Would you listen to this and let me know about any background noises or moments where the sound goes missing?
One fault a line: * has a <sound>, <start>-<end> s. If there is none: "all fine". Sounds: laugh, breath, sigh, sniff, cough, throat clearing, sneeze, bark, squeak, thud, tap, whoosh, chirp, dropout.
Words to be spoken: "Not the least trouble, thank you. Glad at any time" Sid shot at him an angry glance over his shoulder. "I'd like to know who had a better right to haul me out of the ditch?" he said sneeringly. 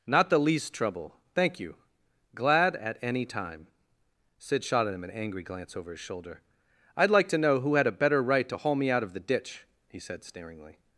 all fine